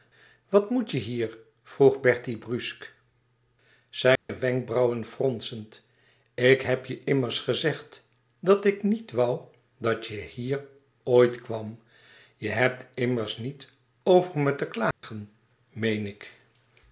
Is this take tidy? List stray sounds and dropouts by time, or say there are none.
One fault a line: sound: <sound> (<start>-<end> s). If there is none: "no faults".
sound: dropout (4.2-4.3 s)
sound: dropout (14.9-15.0 s)